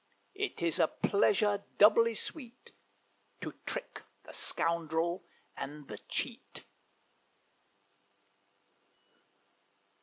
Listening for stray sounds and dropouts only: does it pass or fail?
pass